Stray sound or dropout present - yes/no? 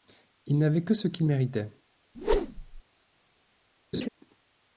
yes